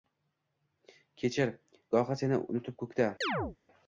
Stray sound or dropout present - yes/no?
yes